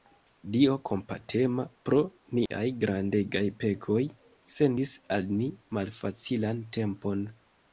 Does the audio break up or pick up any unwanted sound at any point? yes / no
yes